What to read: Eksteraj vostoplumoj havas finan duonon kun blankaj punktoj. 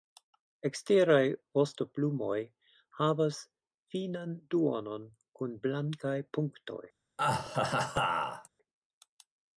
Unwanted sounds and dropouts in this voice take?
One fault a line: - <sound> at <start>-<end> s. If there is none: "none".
- laugh at 7.2-8.5 s